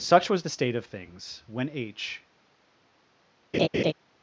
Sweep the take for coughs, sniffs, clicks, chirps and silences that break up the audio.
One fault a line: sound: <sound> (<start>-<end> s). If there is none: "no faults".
sound: laugh (3.5-3.9 s)